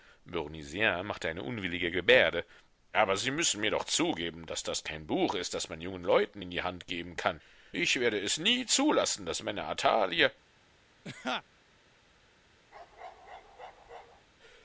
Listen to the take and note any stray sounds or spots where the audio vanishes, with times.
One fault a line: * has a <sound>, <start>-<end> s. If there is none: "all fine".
* has a laugh, 11.0-11.4 s
* has a bark, 12.7-14.3 s